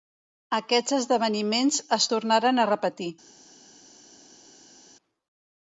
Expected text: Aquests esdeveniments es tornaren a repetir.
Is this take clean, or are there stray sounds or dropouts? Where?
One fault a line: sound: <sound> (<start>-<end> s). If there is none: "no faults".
no faults